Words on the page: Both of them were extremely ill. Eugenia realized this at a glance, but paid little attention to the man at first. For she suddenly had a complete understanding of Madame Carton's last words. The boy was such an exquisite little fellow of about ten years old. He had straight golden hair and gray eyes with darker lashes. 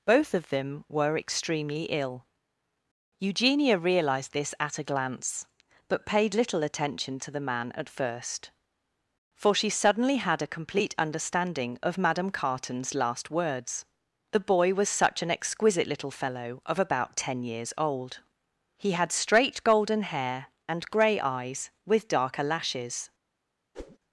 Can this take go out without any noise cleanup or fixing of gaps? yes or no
no